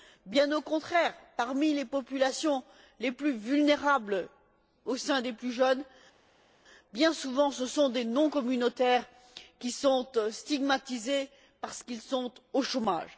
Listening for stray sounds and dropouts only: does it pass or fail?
pass